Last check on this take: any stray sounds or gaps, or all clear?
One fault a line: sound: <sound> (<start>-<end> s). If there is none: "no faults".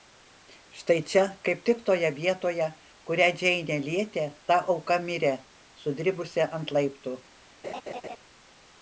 sound: laugh (7.6-8.2 s)